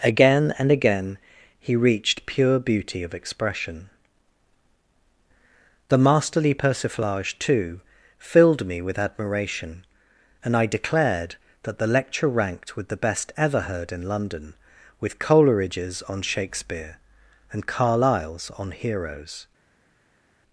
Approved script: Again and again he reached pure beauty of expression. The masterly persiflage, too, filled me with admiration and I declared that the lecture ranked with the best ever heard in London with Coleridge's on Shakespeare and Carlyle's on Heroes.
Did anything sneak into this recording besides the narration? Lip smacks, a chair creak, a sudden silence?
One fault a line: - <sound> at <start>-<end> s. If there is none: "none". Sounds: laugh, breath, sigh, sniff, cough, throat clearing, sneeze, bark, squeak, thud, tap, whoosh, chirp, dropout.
none